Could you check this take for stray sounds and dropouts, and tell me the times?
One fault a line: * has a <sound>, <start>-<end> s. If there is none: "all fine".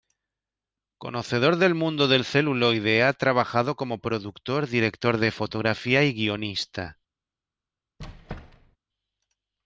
* has a squeak, 8.0-8.8 s